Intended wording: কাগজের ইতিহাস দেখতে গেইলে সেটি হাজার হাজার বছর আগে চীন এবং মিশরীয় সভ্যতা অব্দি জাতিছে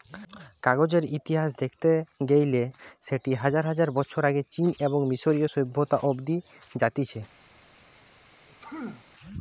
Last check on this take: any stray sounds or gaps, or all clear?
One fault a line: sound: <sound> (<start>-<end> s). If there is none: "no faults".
sound: sneeze (8.5-9.1 s)